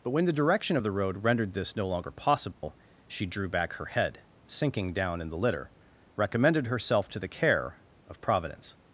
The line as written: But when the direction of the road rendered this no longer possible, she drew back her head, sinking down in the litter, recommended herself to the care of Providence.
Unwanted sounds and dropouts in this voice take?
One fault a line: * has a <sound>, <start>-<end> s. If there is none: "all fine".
* has a dropout, 2.5-2.6 s